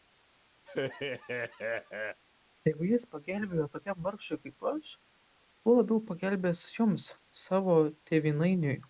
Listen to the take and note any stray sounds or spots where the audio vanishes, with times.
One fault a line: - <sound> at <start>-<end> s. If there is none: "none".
- laugh at 0.7-2.2 s